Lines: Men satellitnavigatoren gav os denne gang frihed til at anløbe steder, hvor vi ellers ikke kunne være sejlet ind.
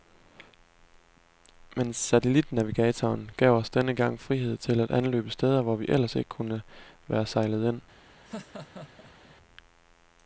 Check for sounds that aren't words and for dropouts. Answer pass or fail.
fail